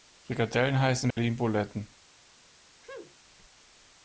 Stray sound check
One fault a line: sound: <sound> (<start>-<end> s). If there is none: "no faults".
sound: dropout (1.1-1.2 s)
sound: sneeze (2.8-3.2 s)